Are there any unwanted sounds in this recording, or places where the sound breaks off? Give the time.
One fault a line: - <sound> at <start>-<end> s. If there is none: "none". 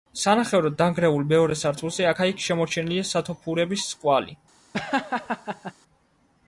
- laugh at 4.7-5.7 s